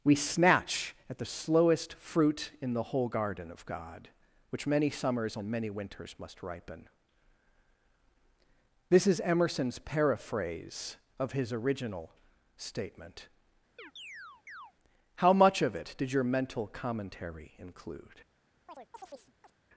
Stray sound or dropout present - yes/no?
yes